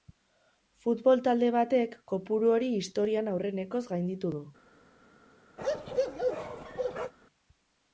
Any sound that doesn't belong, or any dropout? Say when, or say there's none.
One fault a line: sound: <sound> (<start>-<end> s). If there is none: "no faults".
sound: bark (5.6-7.1 s)